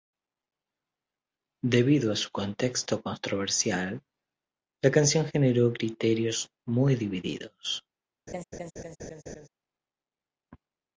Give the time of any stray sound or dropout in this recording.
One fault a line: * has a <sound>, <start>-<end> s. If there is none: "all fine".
* has a laugh, 8.3-9.5 s